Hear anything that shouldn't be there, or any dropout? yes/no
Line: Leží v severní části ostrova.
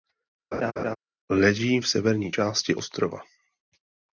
yes